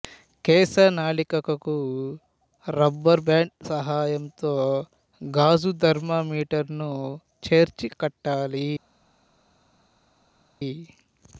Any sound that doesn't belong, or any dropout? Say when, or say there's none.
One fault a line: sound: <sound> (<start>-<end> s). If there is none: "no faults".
no faults